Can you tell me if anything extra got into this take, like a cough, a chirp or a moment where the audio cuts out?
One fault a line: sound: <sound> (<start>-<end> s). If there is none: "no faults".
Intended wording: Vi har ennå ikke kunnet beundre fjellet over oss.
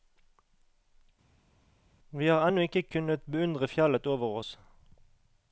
no faults